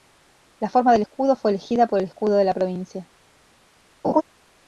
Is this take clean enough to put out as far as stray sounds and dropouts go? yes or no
no